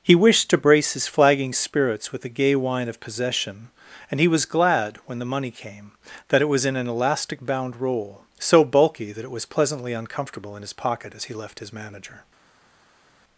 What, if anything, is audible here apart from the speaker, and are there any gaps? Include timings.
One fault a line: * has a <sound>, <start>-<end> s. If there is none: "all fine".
all fine